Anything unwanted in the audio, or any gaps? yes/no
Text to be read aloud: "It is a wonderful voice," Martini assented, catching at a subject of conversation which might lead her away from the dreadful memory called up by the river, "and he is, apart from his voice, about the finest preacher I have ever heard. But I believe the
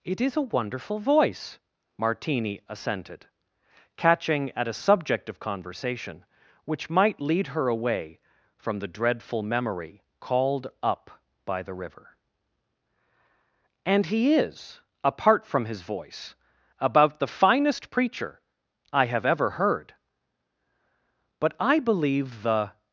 no